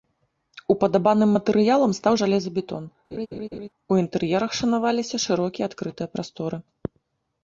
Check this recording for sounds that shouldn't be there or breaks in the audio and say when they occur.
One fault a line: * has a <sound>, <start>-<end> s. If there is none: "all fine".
* has a laugh, 3.1-3.7 s